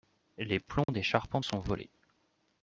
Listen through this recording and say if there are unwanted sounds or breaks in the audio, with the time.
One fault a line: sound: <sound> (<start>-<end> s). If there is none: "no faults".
sound: dropout (0.8-0.9 s)